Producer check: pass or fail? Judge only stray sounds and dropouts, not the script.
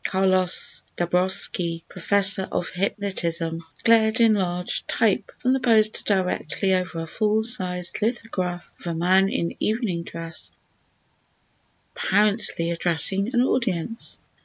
pass